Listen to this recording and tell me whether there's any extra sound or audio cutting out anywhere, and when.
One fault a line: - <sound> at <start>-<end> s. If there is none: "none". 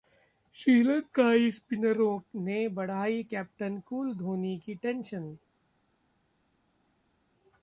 none